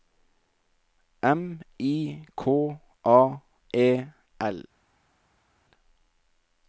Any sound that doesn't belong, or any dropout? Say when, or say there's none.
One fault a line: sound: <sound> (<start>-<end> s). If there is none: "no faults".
no faults